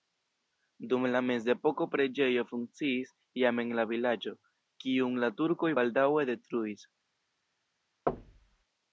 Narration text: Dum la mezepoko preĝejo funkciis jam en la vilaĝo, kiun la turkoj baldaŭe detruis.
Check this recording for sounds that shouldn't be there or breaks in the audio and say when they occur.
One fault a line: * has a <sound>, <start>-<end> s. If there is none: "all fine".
* has a thud, 8.1-8.6 s